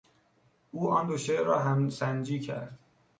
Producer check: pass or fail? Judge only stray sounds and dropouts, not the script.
pass